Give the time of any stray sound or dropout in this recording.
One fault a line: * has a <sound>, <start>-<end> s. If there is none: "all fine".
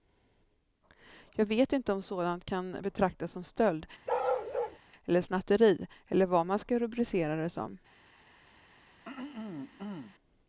* has a bark, 4.1-4.8 s
* has a throat clearing, 9.0-10.2 s